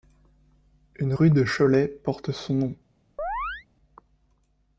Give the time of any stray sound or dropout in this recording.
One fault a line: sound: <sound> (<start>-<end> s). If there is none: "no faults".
sound: chirp (3.2-3.7 s)